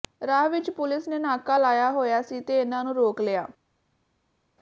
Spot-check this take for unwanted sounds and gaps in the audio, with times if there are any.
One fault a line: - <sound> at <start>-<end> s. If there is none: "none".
none